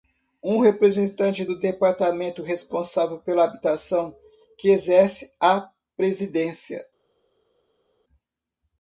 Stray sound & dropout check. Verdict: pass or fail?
pass